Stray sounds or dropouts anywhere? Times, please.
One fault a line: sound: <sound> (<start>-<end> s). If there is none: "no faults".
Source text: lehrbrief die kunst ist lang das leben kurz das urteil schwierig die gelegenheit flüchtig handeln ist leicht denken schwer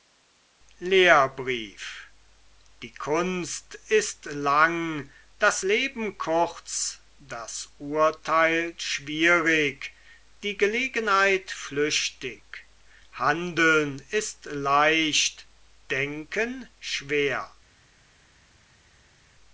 no faults